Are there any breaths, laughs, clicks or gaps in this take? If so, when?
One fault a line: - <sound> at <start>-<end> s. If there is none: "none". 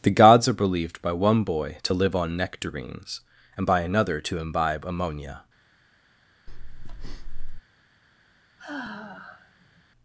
- breath at 6.5-7.6 s
- sigh at 8.6-9.8 s